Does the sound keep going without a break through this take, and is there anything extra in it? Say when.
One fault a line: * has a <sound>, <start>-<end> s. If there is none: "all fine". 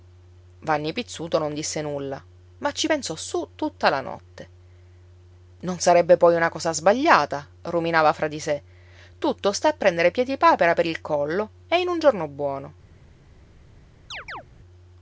* has a chirp, 14.1-14.4 s